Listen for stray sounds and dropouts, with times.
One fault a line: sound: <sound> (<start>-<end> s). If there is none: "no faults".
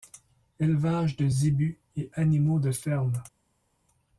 no faults